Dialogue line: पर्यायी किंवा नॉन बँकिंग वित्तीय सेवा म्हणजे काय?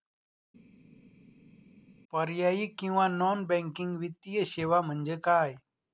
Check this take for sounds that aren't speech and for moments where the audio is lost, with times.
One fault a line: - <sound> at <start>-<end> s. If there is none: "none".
none